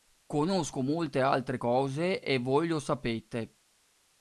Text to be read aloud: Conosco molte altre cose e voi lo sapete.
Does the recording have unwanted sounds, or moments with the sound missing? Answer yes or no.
no